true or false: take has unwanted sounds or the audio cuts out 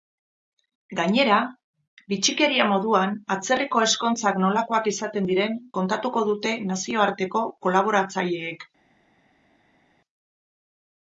false